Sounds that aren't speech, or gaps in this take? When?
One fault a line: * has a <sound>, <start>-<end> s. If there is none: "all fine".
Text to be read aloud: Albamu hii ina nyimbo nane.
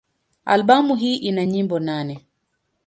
all fine